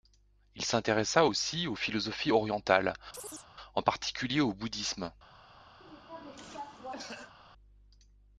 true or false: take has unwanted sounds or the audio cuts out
true